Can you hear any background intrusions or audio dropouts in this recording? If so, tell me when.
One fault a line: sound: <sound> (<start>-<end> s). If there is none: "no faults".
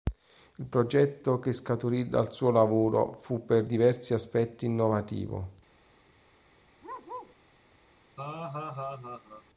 sound: bark (6.8-7.4 s)
sound: laugh (8.2-9.4 s)